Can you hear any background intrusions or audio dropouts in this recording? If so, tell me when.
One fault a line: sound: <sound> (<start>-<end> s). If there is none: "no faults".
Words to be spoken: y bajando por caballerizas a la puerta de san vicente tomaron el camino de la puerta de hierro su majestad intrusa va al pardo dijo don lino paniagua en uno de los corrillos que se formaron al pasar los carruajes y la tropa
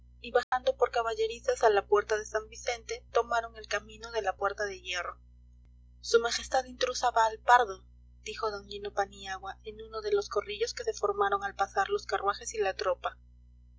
sound: dropout (0.4-0.5 s)